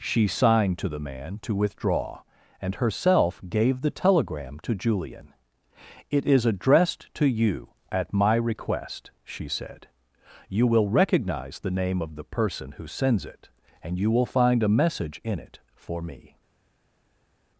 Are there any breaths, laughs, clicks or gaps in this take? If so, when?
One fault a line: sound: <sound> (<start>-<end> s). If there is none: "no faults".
no faults